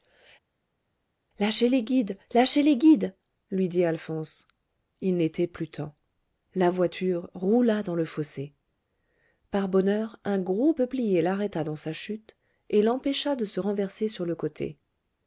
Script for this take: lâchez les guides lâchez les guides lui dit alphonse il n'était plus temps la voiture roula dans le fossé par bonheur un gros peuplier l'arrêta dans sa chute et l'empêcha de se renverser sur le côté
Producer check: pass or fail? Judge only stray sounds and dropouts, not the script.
pass